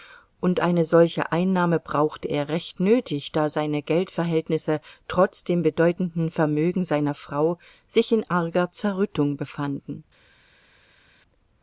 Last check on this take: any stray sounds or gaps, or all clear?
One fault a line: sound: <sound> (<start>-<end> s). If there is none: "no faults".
no faults